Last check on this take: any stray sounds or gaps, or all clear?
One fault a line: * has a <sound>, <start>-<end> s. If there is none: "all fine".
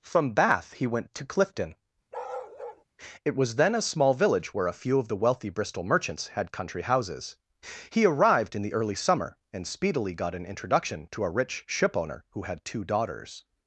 * has a bark, 2.1-2.8 s